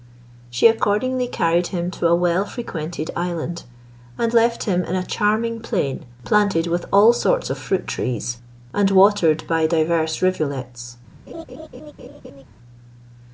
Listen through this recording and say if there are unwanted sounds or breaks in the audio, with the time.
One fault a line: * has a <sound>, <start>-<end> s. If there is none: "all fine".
* has a laugh, 11.3-12.4 s